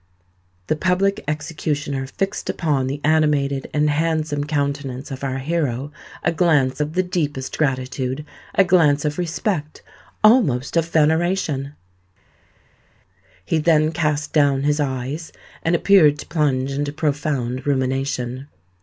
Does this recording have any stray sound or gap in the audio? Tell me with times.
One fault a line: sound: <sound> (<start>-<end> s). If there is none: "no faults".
no faults